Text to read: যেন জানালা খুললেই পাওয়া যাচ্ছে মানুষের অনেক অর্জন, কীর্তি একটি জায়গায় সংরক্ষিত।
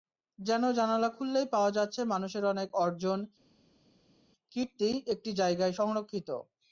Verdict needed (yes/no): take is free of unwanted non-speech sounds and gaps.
yes